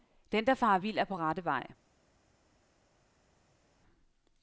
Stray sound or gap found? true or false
false